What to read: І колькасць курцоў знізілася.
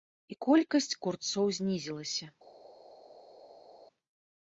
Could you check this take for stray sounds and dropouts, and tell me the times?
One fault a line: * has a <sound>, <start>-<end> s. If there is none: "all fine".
all fine